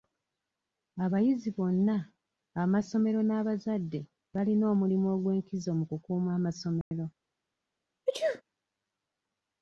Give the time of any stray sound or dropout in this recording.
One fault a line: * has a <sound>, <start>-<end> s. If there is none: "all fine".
* has a dropout, 6.8-6.9 s
* has a sneeze, 8.1-8.4 s